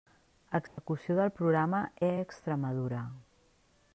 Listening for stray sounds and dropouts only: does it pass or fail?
fail